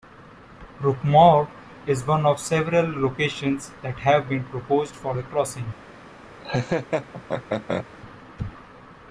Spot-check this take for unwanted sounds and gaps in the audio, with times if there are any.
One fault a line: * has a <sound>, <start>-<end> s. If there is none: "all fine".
* has a laugh, 6.4-7.9 s